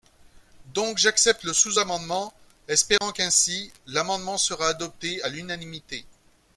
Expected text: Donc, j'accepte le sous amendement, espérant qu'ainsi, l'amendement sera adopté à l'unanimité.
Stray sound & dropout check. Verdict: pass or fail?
fail